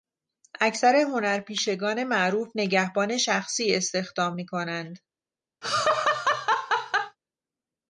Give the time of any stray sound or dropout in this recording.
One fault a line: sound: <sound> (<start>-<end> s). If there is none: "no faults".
sound: laugh (5.6-7.2 s)